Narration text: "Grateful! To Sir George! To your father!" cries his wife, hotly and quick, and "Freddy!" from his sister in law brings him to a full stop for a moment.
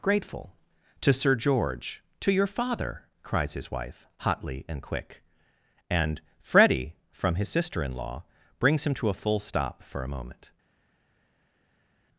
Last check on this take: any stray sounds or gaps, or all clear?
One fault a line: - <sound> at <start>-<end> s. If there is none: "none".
none